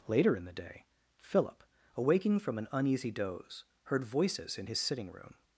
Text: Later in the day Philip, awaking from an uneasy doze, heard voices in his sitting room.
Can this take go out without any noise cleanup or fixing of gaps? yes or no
yes